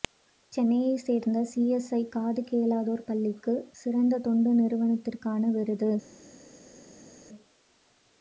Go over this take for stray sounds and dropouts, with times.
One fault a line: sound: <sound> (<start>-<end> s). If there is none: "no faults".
no faults